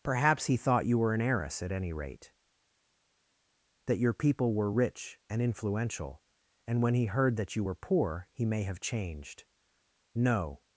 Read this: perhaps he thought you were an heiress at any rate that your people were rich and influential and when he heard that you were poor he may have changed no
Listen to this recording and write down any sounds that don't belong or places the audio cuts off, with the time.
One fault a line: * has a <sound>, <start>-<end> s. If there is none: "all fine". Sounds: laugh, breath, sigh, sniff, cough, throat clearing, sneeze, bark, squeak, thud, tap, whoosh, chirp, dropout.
all fine